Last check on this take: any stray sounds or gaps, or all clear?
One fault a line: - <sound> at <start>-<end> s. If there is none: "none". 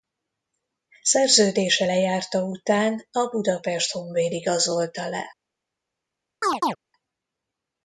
- chirp at 6.4-6.8 s